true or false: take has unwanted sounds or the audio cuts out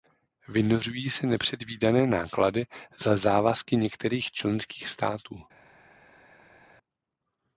false